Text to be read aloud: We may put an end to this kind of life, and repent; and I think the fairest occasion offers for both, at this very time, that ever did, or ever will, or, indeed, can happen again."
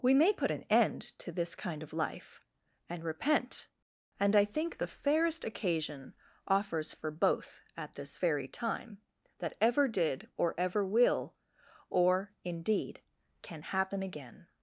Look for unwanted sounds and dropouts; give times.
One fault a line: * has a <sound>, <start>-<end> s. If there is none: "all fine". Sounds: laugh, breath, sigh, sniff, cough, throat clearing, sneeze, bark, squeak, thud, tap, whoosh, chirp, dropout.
all fine